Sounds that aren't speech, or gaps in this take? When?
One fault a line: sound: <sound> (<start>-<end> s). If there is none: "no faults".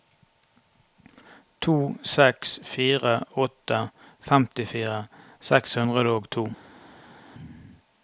no faults